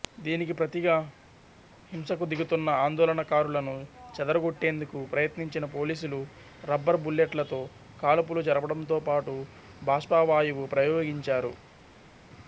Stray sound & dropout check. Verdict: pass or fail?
pass